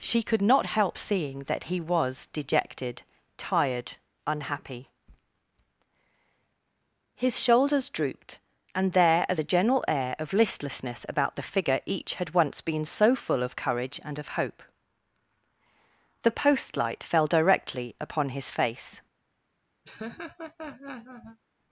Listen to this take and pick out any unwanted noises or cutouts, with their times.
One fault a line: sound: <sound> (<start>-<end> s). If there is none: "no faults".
sound: laugh (19.8-21.4 s)